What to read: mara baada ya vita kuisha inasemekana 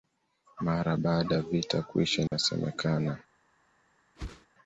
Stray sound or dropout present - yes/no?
yes